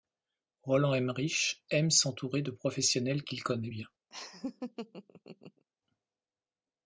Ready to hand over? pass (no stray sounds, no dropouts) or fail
fail